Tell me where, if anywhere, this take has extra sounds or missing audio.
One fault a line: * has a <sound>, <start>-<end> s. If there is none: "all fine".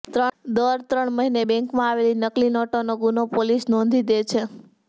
all fine